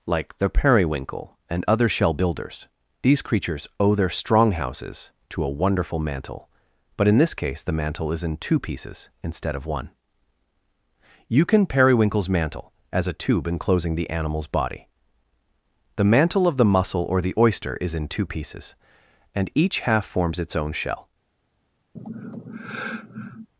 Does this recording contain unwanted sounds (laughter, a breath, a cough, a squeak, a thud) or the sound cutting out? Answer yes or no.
yes